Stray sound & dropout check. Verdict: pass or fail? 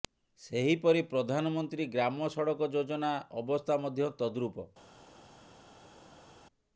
pass